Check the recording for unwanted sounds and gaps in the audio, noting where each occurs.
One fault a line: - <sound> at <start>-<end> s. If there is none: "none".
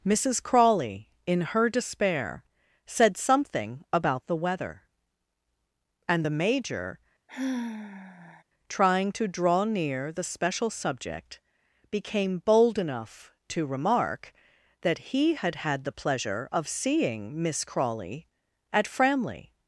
- sigh at 7.3-8.4 s